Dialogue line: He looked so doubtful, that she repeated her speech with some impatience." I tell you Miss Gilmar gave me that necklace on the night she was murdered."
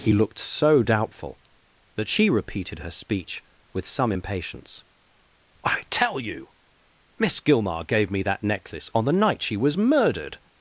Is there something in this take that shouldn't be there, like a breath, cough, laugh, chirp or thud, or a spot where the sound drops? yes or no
no